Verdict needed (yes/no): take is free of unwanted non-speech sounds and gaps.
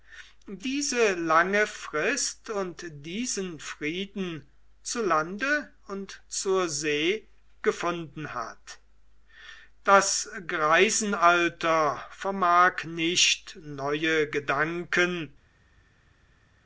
yes